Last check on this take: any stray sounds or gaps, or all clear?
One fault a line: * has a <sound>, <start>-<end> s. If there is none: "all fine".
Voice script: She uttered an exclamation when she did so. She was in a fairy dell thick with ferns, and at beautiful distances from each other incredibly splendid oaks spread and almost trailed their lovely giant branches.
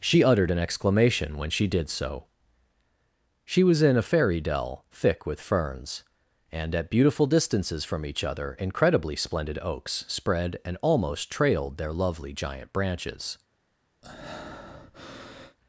* has a breath, 14.0-15.6 s